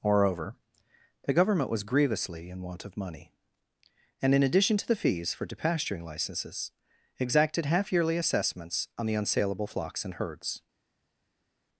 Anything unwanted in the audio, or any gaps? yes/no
no